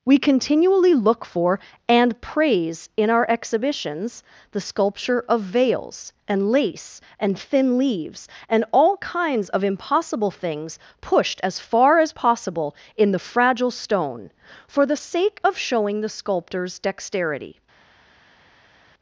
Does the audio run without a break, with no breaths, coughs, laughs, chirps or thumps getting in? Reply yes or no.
yes